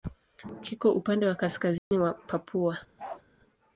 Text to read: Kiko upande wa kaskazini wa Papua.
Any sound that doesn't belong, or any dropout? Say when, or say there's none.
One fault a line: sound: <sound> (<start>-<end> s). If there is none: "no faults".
sound: dropout (1.8-1.9 s)
sound: bark (3.0-3.2 s)